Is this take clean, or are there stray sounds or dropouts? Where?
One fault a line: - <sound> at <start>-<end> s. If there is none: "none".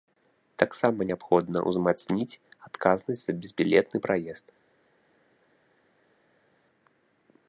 none